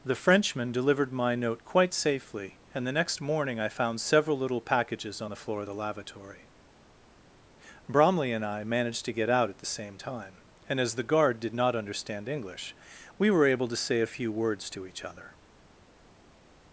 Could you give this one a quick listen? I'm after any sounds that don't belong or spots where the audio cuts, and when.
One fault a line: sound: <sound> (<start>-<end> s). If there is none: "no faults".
no faults